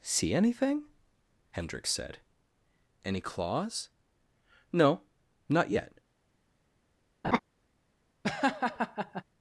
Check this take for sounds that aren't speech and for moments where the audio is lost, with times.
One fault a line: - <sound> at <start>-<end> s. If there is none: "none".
- laugh at 7.2-7.4 s
- laugh at 8.2-9.2 s